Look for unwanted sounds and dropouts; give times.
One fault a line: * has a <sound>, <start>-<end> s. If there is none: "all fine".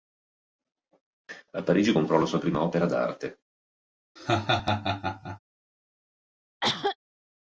* has a laugh, 4.2-5.4 s
* has a cough, 6.6-7.0 s